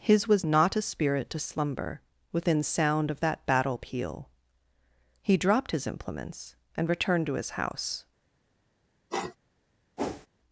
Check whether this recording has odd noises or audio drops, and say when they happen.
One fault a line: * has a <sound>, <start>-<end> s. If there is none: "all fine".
* has a sniff, 9.1-9.4 s
* has a whoosh, 10.0-10.3 s